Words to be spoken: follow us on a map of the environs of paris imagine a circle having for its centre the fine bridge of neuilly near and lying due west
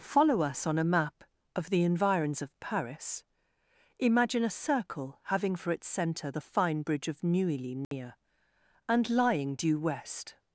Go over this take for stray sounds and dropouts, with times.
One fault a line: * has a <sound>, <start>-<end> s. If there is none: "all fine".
* has a dropout, 7.8-7.9 s